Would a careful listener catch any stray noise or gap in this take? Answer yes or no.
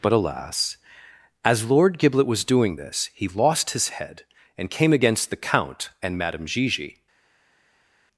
no